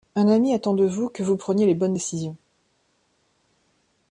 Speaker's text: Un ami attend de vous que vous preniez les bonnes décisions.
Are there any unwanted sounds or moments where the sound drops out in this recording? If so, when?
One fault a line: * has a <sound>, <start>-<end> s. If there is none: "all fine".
all fine